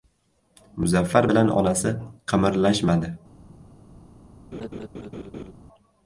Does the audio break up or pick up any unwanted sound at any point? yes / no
yes